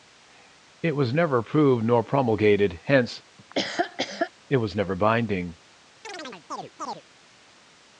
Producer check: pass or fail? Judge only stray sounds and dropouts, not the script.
fail